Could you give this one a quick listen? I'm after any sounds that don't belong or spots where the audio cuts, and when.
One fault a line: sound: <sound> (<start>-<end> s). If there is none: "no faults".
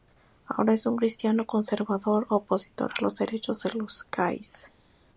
no faults